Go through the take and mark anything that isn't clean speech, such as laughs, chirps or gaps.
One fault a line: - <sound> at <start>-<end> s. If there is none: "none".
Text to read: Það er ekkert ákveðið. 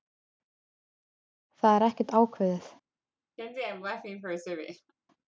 - laugh at 3.4-4.9 s